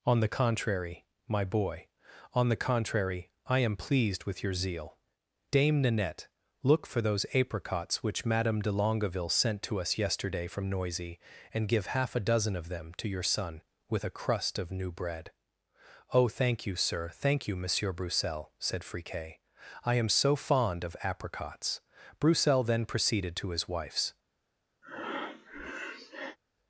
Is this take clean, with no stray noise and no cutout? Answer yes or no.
no